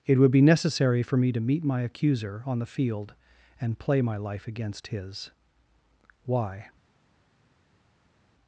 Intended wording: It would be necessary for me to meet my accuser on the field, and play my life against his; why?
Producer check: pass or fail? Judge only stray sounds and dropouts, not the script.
pass